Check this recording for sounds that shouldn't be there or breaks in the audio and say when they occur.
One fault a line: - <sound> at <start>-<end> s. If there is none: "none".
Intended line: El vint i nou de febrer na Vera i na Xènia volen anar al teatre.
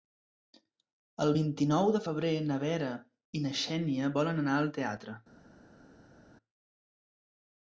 none